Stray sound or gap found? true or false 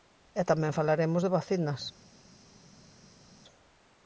false